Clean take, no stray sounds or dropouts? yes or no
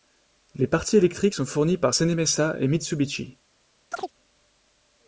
no